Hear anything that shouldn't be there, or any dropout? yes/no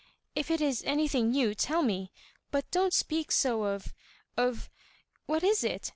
no